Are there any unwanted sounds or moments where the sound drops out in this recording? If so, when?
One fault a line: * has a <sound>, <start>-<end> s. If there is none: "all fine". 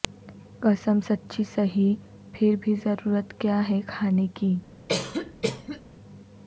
* has a cough, 4.9-5.8 s